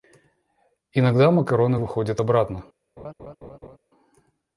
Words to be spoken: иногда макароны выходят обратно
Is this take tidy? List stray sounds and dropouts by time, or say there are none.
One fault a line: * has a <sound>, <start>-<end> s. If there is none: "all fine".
* has a laugh, 3.0-3.8 s